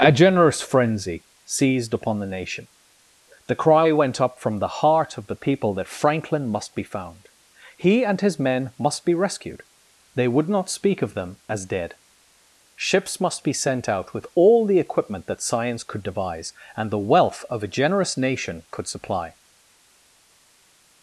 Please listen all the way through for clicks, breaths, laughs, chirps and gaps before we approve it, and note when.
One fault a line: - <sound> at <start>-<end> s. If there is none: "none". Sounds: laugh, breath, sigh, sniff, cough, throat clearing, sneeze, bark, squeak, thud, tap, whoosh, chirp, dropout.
none